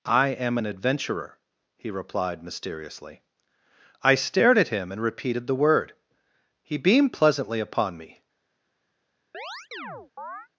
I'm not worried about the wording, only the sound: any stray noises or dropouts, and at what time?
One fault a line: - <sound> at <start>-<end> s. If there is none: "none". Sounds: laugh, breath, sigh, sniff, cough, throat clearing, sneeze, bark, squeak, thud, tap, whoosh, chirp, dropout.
- chirp at 9.3-10.5 s